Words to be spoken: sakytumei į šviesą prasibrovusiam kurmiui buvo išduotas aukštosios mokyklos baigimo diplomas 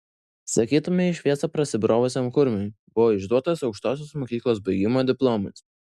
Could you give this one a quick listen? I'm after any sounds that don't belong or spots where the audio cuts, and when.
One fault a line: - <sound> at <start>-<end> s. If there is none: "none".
none